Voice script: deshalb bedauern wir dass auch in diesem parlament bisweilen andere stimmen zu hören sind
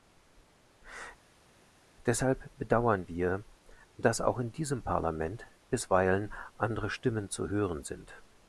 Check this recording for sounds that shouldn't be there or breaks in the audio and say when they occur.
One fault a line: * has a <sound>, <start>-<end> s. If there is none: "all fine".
all fine